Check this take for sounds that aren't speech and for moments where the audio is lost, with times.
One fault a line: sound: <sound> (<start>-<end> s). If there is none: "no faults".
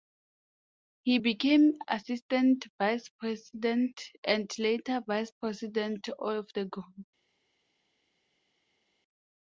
no faults